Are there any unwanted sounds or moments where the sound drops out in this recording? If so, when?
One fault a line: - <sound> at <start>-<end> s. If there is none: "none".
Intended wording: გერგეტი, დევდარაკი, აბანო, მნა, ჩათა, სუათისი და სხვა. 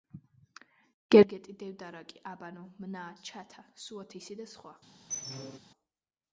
- squeak at 5.1-5.6 s